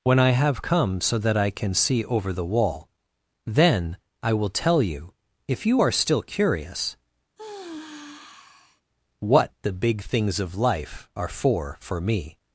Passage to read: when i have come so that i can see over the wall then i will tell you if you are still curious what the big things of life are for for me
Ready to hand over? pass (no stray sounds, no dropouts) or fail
fail